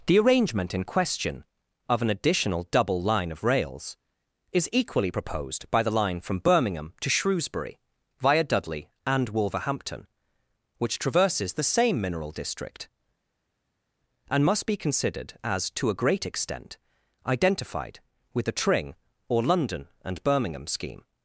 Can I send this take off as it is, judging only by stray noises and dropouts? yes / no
yes